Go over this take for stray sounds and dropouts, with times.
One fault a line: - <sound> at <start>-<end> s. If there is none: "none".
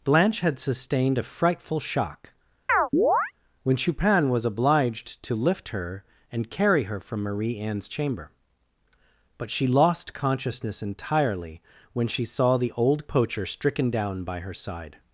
- chirp at 2.7-3.3 s